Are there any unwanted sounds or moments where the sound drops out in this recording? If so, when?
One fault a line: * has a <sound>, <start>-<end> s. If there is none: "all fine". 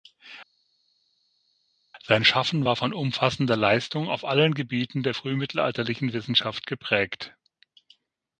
all fine